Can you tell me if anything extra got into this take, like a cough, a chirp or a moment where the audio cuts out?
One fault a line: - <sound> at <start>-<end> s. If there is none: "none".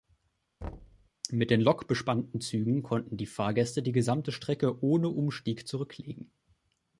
- thud at 0.6-1.1 s